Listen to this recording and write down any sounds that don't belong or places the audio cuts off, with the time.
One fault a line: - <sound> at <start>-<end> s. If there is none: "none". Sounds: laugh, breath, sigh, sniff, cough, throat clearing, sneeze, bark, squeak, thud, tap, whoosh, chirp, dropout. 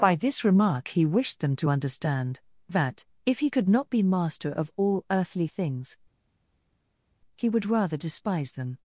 none